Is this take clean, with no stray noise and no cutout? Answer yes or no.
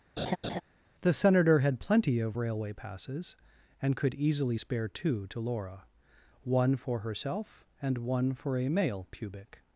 no